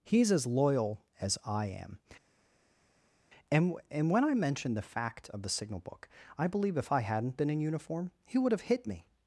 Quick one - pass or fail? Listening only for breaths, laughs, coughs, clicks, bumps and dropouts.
pass